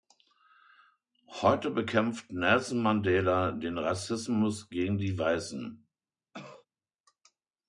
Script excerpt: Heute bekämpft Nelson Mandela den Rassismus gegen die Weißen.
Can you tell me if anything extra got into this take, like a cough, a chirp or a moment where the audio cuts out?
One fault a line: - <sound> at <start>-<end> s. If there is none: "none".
- cough at 6.3-6.7 s